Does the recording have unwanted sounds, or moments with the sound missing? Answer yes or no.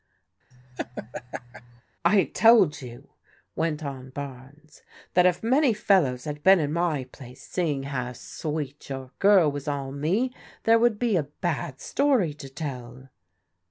yes